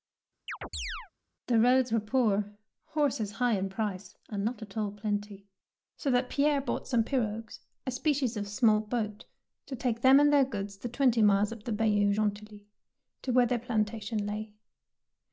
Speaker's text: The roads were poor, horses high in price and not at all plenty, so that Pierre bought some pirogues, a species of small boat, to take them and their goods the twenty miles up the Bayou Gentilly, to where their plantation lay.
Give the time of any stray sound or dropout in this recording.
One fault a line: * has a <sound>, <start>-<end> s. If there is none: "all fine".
* has a chirp, 0.5-1.1 s